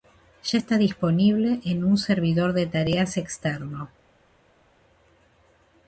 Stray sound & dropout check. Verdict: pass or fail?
pass